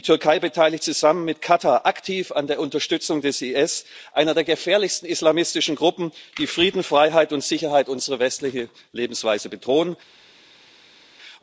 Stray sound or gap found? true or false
false